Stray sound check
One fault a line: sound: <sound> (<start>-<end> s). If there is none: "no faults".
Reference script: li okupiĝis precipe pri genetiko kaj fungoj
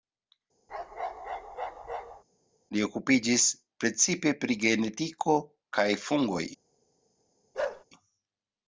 sound: bark (0.7-2.2 s)
sound: bark (7.5-7.8 s)